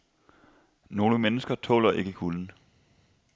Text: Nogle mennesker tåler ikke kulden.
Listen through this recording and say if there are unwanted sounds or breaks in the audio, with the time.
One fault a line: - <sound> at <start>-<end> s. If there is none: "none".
none